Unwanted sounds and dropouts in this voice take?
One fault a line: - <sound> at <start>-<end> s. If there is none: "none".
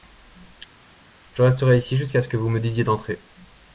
none